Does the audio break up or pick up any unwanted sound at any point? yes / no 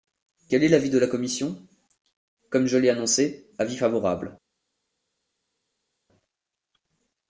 no